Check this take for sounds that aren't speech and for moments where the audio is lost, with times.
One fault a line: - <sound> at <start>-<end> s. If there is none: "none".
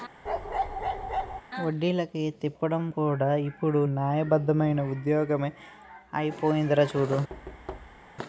- bark at 0.3-1.4 s
- thud at 7.3-8.1 s